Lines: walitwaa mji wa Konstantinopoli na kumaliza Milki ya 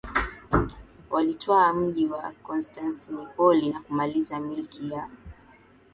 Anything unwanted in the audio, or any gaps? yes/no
no